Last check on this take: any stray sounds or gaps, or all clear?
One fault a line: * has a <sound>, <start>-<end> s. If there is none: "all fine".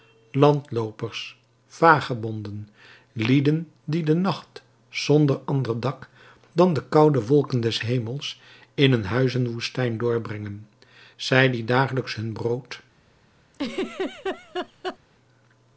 * has a laugh, 13.5-15.0 s